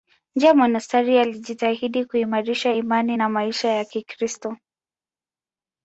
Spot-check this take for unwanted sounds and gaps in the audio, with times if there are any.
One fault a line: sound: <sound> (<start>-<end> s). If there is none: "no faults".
no faults